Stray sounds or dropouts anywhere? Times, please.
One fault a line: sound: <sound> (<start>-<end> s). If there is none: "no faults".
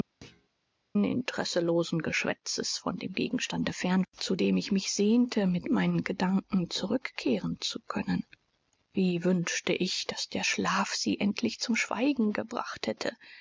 sound: thud (0.2-0.5 s)